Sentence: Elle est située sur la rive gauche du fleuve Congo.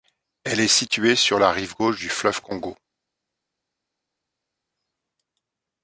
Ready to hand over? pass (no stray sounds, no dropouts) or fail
pass